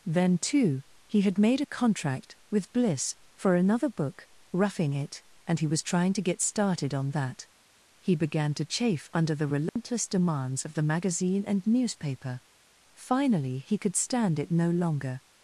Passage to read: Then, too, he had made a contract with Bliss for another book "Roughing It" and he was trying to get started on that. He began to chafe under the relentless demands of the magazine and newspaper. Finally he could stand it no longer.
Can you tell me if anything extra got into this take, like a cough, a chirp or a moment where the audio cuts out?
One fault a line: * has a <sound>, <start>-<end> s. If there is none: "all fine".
* has a dropout, 9.7-9.8 s